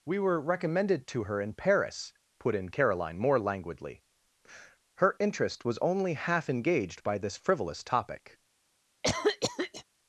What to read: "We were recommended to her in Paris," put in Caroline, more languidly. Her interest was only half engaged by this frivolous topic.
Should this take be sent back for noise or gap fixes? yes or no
yes